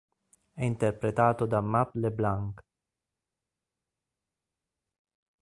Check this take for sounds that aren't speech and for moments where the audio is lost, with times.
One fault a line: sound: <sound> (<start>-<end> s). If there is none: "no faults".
no faults